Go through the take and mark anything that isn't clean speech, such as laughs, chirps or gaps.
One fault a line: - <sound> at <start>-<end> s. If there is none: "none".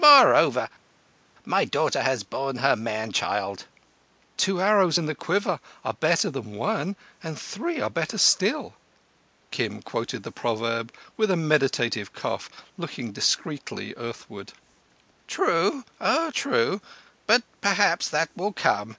none